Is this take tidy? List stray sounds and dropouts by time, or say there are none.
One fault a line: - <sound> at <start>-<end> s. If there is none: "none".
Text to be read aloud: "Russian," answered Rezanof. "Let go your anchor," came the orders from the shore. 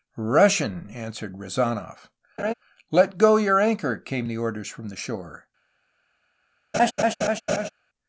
- laugh at 2.4-2.5 s
- laugh at 6.7-7.7 s